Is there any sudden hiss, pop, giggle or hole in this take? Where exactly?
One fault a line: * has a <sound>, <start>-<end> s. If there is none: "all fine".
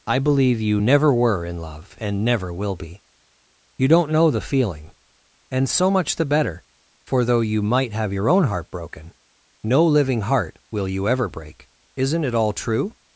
all fine